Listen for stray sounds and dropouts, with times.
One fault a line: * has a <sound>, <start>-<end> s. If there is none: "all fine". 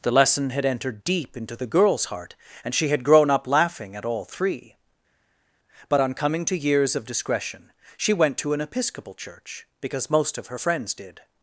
all fine